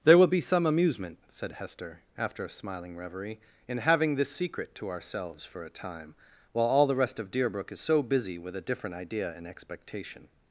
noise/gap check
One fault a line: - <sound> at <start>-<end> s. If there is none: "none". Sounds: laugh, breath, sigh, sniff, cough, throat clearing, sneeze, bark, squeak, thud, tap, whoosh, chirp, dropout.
none